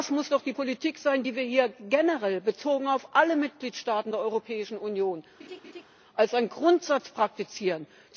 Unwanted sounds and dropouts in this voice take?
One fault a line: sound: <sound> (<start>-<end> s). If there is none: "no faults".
sound: laugh (5.4-5.9 s)